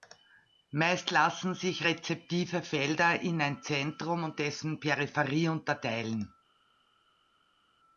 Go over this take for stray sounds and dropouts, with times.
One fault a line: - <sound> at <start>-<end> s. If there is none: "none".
none